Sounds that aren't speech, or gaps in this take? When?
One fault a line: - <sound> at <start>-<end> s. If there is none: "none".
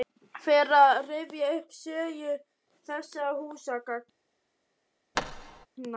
- thud at 5.1-5.7 s